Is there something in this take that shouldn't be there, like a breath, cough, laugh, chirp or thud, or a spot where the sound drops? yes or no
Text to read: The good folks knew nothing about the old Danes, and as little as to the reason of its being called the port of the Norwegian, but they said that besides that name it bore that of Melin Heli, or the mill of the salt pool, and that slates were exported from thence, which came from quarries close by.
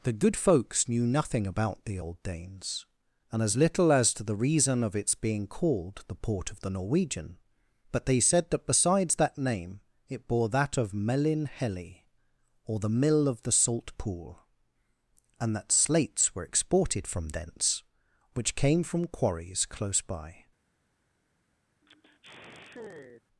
yes